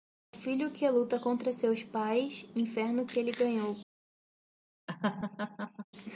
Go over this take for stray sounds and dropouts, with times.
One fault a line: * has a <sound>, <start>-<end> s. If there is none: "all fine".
* has a laugh, 4.9-5.9 s